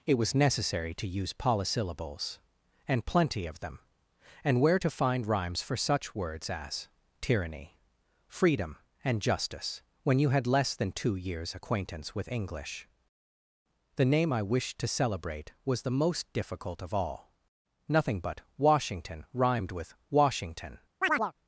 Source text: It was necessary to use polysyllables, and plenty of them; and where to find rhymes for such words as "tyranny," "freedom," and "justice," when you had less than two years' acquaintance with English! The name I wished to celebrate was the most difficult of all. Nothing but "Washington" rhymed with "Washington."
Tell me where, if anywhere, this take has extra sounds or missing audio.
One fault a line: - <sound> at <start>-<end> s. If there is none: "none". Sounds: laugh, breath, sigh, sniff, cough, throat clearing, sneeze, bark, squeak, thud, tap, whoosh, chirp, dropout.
- chirp at 21.0-21.3 s